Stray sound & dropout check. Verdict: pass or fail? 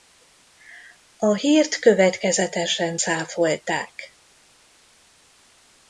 pass